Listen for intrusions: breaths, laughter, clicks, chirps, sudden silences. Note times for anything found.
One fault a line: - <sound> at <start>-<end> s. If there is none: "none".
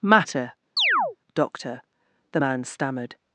- chirp at 0.8-1.2 s